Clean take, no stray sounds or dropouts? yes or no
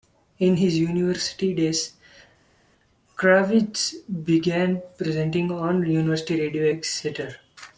yes